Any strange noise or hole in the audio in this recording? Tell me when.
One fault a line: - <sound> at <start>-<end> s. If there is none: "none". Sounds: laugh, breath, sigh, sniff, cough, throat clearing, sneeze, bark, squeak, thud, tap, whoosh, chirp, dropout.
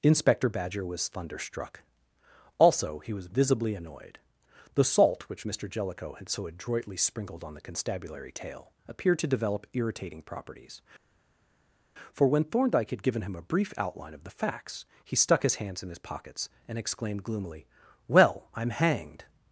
none